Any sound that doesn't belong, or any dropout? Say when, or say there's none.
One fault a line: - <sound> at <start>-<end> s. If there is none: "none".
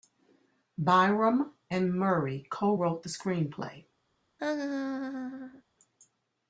- laugh at 4.4-5.6 s